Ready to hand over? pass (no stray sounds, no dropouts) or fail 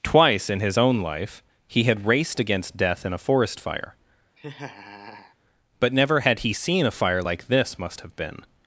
fail